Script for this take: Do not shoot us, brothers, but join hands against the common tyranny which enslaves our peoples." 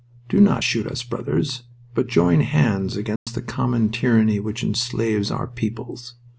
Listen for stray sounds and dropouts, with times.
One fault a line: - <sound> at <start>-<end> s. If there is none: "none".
- dropout at 3.2-3.3 s